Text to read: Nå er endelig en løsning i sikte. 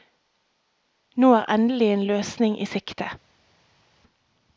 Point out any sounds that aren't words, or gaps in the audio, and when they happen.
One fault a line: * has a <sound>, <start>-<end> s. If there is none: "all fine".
all fine